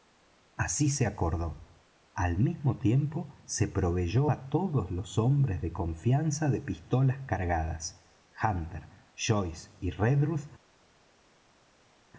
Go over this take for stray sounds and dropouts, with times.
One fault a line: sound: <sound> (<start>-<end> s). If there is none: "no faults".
no faults